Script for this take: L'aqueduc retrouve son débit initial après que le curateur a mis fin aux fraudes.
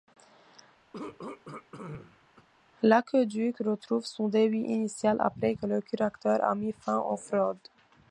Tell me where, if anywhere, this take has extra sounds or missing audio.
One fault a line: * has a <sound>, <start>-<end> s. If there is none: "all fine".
* has a throat clearing, 0.9-2.5 s